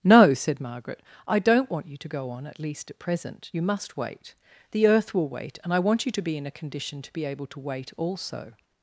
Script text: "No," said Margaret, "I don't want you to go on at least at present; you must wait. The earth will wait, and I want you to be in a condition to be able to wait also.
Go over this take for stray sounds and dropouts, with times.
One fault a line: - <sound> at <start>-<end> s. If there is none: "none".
none